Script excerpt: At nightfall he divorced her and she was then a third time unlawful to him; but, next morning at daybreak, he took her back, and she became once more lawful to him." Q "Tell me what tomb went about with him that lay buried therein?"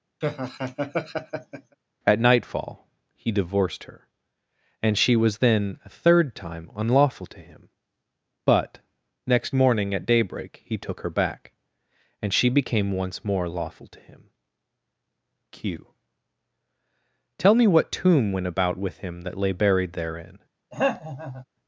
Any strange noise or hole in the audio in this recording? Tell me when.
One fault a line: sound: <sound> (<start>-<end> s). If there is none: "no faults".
sound: laugh (0.2-1.8 s)
sound: throat clearing (20.7-21.4 s)